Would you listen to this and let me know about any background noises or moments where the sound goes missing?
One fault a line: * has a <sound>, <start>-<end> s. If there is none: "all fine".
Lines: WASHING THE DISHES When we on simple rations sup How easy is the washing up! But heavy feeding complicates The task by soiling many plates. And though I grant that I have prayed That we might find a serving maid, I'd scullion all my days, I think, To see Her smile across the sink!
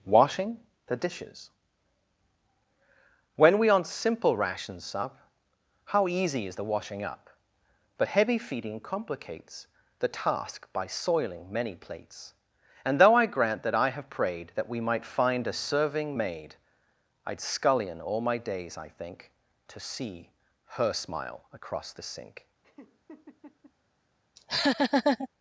* has a laugh, 22.6-23.7 s
* has a laugh, 24.4-25.3 s